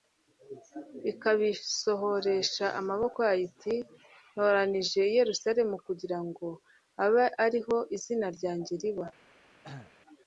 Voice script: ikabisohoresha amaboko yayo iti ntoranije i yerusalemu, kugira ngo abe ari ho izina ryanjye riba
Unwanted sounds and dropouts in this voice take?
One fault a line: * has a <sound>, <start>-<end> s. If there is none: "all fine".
* has a cough, 9.6-9.9 s